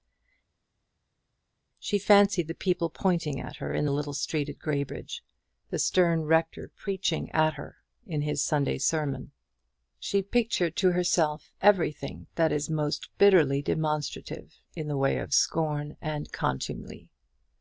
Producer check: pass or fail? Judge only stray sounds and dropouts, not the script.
pass